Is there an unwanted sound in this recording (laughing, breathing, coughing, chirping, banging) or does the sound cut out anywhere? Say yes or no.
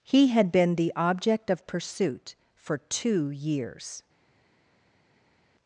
no